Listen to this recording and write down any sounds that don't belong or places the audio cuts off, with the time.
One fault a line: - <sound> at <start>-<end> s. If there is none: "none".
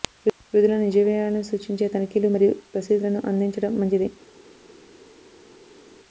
none